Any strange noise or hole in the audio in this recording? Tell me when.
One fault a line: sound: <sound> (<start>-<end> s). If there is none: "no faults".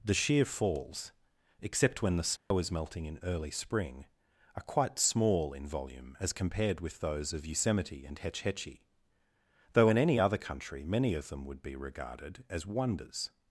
sound: dropout (2.4-2.5 s)